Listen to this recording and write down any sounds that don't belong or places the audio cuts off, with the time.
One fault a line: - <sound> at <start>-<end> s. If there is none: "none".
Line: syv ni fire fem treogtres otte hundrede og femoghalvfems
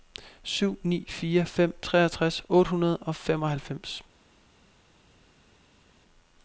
none